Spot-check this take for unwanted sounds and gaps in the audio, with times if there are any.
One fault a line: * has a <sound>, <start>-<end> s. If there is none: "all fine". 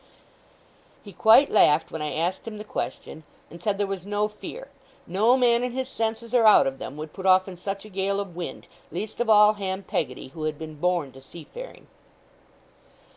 all fine